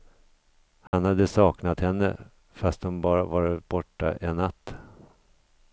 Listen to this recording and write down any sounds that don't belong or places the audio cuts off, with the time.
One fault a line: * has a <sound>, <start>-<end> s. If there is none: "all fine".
* has a dropout, 0.9-0.9 s